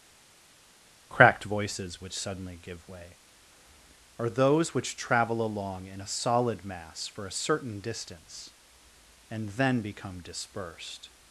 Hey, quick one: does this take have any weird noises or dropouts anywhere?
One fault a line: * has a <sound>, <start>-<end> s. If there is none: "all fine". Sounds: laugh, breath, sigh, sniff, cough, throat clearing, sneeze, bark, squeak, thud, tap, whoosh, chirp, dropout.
all fine